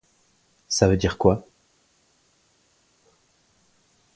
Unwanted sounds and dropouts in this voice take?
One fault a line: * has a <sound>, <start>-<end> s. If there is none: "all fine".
all fine